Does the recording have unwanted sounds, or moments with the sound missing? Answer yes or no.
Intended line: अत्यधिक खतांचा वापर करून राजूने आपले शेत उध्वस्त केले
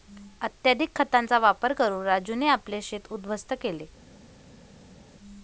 no